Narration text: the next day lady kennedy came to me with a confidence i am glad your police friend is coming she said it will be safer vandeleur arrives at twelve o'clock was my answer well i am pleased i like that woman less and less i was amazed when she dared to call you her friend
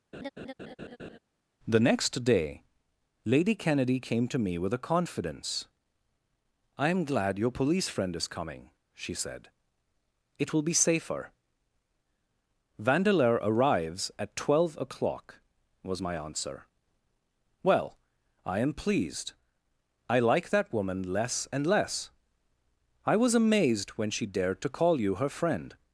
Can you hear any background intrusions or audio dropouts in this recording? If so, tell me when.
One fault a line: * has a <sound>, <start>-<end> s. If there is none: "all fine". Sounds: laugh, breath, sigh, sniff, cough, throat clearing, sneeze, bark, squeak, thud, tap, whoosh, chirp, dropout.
* has a laugh, 0.1-1.2 s